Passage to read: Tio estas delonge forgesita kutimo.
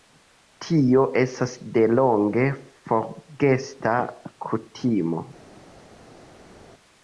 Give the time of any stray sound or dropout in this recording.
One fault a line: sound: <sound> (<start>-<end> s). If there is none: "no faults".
no faults